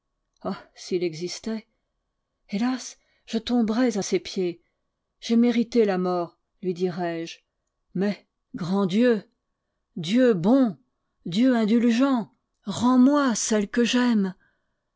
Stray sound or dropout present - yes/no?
no